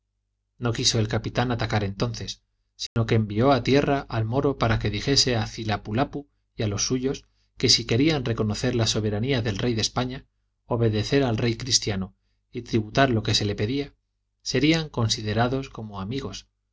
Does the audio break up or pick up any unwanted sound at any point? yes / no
yes